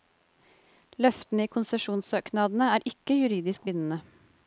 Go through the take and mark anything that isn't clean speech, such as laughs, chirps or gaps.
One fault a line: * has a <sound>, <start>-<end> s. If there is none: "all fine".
all fine